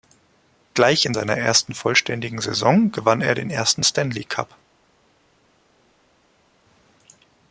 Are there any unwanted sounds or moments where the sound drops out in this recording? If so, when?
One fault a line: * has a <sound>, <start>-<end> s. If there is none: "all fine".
all fine